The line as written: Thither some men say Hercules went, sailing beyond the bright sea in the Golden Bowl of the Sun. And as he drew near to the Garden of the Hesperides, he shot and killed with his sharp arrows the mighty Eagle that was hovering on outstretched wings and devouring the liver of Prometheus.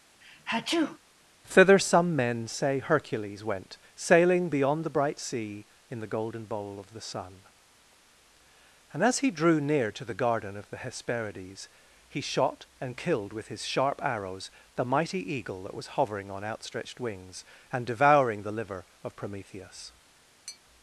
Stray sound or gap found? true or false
true